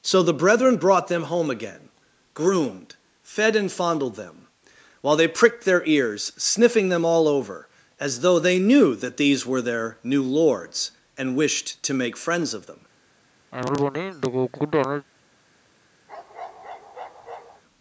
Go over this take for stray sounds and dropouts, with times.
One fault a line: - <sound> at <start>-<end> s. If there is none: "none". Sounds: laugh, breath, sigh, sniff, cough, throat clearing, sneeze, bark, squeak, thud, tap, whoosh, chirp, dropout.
- cough at 13.5-15.1 s
- bark at 16.1-17.6 s